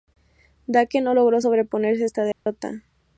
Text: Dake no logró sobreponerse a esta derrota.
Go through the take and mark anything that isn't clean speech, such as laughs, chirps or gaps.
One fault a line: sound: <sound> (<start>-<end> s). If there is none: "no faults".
sound: dropout (2.3-2.5 s)